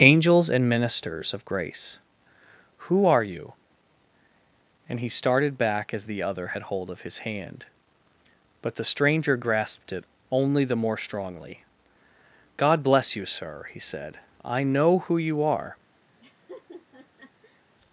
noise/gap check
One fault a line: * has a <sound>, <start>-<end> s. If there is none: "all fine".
* has a laugh, 16.2-17.6 s